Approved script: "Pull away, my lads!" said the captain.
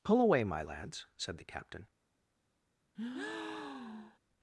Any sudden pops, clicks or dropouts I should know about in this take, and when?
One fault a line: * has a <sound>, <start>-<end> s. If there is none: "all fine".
* has a breath, 2.9-4.2 s